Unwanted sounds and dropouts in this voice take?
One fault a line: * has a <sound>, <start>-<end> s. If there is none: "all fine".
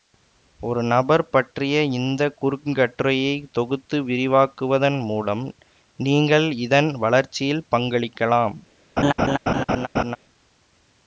* has a laugh, 9.0-10.2 s